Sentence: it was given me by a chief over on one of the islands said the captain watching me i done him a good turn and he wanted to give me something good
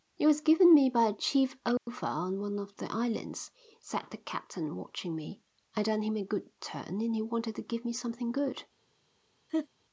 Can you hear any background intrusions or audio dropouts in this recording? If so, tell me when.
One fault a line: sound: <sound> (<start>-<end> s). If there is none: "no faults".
sound: dropout (1.8-1.9 s)
sound: laugh (9.5-9.7 s)